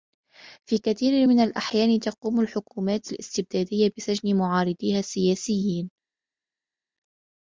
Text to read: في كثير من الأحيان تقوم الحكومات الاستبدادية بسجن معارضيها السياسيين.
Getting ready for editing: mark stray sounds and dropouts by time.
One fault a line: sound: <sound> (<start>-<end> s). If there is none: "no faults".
no faults